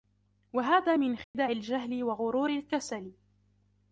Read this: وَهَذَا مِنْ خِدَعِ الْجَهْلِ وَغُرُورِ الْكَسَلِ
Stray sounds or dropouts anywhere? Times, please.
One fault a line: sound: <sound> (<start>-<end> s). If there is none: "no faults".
sound: dropout (1.2-1.3 s)